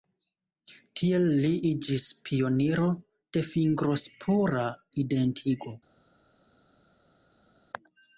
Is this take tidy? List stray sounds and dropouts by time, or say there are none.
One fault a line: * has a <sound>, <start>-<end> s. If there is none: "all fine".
all fine